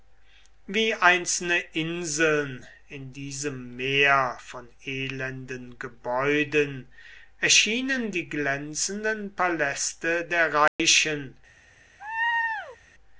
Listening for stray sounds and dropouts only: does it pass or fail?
fail